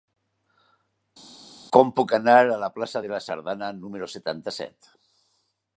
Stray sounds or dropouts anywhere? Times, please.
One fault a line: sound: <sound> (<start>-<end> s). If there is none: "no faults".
no faults